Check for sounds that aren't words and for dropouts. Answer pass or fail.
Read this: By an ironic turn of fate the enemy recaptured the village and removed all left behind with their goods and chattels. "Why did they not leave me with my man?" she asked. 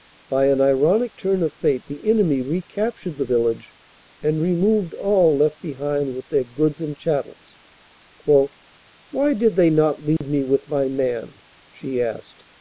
fail